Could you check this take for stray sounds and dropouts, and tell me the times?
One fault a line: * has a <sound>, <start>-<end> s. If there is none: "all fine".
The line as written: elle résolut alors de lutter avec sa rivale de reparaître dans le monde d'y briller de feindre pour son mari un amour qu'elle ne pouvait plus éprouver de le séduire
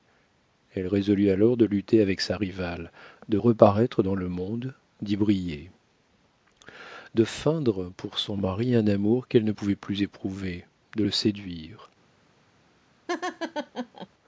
* has a laugh, 13.1-14.1 s